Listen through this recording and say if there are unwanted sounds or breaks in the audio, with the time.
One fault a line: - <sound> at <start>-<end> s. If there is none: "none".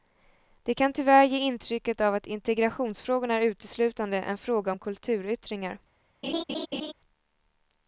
- laugh at 6.2-6.9 s